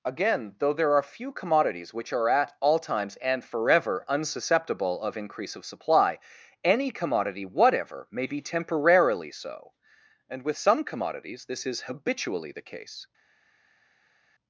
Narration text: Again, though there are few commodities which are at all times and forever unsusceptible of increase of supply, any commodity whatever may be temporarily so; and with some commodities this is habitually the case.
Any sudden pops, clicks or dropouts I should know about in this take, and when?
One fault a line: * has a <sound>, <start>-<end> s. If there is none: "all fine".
all fine